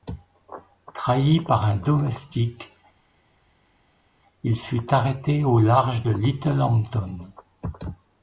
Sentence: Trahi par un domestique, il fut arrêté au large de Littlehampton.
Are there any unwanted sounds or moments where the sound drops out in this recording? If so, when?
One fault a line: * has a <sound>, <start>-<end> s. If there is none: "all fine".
all fine